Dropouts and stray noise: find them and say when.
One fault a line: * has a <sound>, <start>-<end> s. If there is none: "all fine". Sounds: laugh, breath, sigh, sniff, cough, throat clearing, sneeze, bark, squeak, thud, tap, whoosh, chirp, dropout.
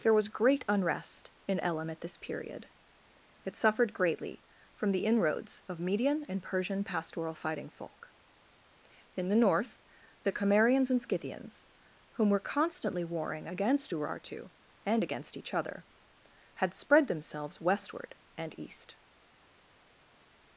all fine